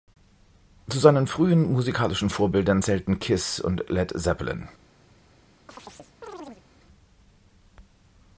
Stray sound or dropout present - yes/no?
yes